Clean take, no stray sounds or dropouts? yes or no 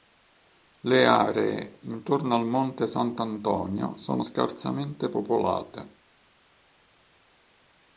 yes